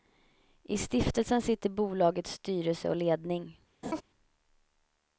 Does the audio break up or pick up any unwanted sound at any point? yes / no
yes